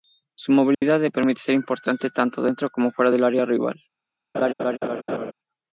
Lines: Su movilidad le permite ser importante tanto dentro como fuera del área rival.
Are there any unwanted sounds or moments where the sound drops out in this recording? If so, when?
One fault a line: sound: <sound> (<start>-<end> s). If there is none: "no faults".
sound: dropout (0.7-0.8 s)
sound: laugh (4.3-5.3 s)